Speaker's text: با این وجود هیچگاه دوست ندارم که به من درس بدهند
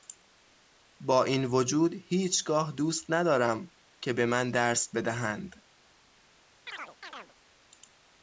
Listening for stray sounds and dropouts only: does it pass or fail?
fail